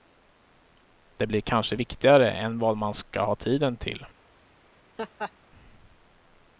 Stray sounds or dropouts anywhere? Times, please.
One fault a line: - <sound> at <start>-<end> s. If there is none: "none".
- laugh at 5.0-5.3 s